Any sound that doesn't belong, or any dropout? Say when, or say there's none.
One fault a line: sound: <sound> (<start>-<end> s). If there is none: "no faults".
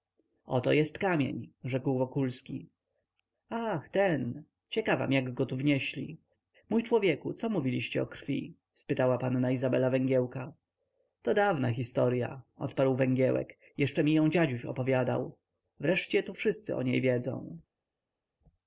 no faults